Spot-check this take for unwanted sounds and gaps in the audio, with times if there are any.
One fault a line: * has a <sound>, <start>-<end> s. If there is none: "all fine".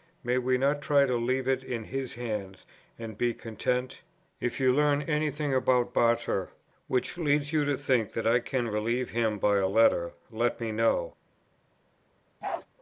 * has a bark, 12.4-12.7 s